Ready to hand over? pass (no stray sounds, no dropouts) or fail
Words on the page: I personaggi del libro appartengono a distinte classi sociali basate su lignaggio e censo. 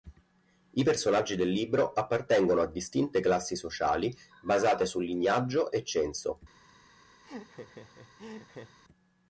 fail